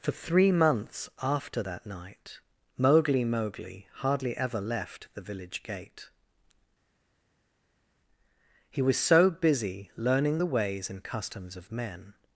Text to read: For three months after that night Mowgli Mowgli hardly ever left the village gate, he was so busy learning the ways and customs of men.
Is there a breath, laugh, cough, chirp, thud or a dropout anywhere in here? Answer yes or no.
no